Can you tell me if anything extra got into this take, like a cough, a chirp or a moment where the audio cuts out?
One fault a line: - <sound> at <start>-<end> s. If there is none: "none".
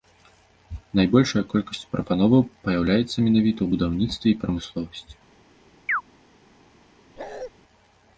- chirp at 5.9-6.0 s
- bark at 7.2-7.5 s